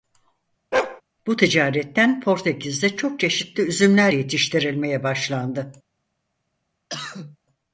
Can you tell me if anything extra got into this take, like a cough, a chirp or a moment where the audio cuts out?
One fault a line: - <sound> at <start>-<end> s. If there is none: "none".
- bark at 0.7-1.0 s
- cough at 6.9-7.4 s